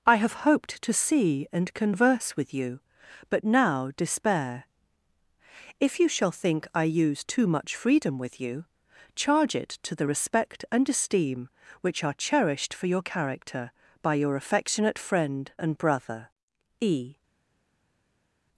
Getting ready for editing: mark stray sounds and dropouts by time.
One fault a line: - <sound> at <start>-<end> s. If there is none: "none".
none